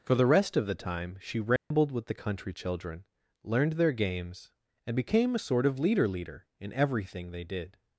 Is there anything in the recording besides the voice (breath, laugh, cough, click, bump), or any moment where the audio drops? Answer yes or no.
yes